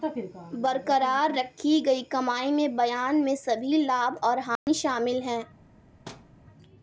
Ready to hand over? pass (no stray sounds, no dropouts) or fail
fail